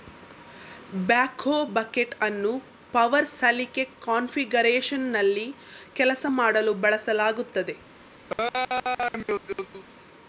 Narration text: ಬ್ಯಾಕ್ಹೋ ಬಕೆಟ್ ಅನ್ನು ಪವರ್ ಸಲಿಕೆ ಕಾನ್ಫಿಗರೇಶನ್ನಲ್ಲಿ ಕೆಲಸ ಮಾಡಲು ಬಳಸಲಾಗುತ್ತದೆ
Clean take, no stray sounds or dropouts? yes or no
no